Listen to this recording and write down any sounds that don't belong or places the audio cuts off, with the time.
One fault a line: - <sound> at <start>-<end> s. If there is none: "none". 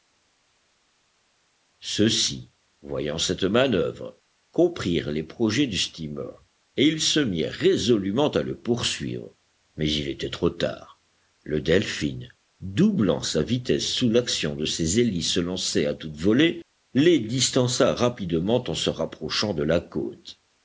none